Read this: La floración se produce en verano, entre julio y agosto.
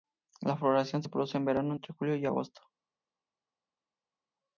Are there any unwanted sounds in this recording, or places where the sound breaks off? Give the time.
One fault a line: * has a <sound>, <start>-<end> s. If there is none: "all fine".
all fine